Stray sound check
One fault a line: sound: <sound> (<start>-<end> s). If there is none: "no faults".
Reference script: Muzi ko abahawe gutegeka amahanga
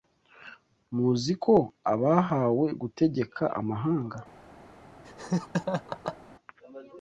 sound: laugh (5.0-6.2 s)